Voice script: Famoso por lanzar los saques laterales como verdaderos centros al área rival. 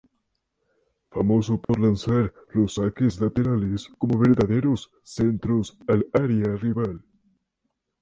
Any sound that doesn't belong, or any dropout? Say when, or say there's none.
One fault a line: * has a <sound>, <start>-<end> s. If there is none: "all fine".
* has a dropout, 1.6-1.7 s